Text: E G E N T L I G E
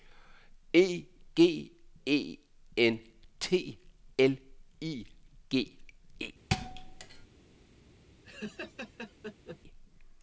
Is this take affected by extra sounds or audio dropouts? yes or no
yes